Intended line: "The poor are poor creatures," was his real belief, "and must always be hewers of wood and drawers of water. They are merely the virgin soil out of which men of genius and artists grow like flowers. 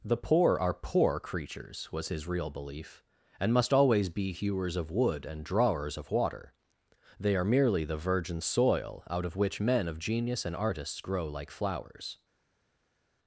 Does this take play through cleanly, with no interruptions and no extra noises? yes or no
yes